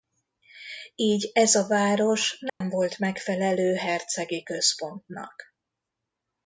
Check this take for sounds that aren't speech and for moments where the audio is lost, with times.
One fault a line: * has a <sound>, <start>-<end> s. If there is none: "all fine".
* has a dropout, 2.5-2.6 s